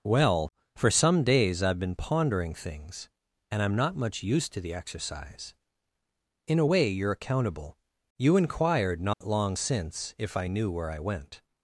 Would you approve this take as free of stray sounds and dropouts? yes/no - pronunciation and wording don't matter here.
no